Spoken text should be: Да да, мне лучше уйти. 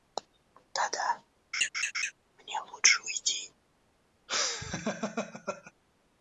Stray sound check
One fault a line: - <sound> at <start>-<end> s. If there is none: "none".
- laugh at 1.5-2.1 s
- laugh at 4.3-5.7 s